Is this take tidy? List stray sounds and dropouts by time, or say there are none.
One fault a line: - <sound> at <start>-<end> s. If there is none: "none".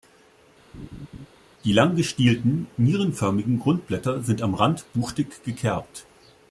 - laugh at 0.7-1.3 s